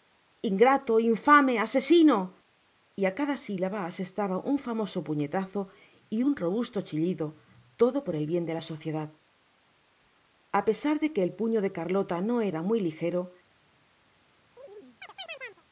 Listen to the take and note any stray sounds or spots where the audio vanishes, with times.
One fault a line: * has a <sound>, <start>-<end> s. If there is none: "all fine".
* has a chirp, 14.6-15.6 s